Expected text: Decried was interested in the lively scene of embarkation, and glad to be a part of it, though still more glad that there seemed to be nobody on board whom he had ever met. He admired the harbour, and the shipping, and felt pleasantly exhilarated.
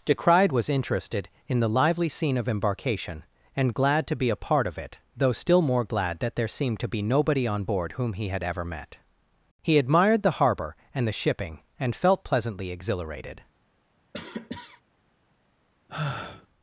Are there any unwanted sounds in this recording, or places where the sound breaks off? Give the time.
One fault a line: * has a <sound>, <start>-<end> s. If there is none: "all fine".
* has a cough, 14.1-14.8 s
* has a sigh, 15.9-16.5 s